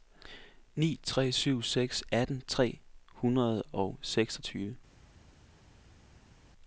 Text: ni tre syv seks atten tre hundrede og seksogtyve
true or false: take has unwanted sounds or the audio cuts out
false